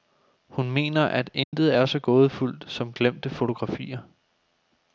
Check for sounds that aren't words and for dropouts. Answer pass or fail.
fail